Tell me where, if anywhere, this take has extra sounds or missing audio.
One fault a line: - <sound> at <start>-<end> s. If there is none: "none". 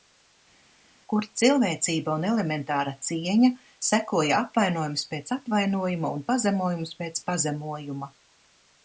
none